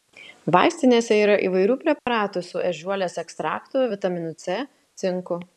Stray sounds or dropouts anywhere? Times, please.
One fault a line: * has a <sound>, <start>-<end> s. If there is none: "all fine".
* has a dropout, 2.0-2.1 s